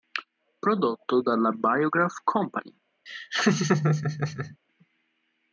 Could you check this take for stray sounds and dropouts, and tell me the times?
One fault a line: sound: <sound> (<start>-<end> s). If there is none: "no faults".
sound: laugh (3.1-4.6 s)